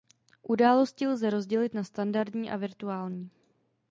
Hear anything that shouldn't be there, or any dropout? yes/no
no